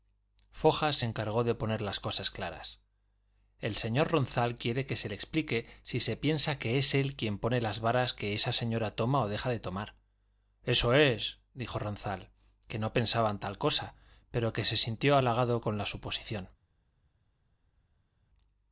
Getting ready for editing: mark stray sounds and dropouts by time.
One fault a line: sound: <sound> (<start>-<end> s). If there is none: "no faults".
no faults